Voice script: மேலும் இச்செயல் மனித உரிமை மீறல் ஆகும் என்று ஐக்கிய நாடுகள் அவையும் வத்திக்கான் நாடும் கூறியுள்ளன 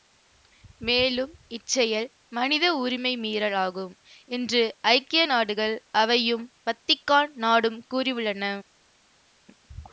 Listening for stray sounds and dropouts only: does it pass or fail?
pass